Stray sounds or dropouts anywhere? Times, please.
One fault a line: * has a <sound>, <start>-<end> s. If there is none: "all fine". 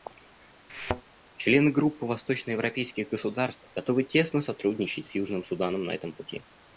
* has a thud, 0.7-1.0 s